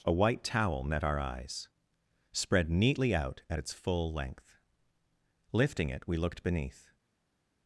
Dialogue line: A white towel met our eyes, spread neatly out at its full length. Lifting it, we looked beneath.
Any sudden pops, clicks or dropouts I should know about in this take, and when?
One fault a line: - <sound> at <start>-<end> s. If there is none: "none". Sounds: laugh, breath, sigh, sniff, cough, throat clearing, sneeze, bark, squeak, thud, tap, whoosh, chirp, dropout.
none